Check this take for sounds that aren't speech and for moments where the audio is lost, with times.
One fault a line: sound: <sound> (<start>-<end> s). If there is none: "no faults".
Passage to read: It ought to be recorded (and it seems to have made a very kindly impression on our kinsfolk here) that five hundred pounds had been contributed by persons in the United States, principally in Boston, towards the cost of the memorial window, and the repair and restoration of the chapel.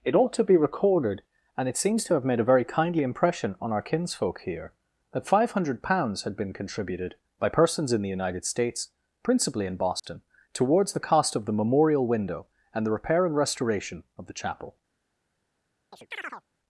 sound: dropout (10.0-10.0 s)
sound: chirp (15.9-16.4 s)